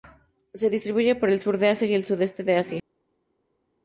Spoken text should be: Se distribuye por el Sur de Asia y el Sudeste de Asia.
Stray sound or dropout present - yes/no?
no